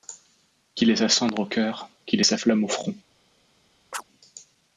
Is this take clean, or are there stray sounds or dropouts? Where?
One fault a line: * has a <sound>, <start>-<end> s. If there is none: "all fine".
* has a chirp, 3.9-4.0 s